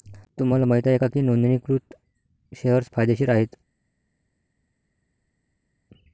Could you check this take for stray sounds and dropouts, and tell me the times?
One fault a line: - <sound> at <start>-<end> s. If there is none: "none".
none